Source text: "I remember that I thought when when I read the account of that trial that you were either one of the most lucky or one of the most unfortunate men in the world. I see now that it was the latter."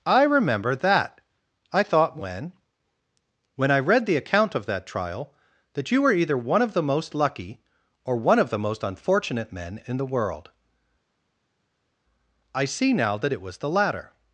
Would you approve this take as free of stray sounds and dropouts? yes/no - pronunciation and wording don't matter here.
yes